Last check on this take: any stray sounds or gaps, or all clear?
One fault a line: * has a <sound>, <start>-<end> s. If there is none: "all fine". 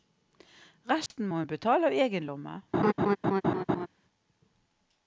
* has a dropout, 1.1-1.1 s
* has a laugh, 2.7-3.9 s